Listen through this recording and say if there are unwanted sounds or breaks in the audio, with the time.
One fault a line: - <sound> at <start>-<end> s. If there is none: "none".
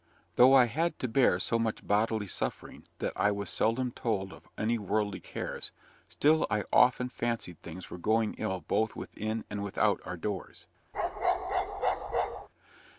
- bark at 10.9-12.5 s